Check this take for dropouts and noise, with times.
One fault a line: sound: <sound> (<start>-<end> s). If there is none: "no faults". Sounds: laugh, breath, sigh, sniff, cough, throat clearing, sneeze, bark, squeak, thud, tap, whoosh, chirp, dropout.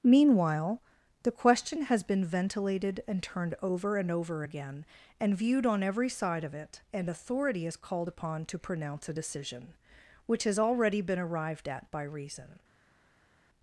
no faults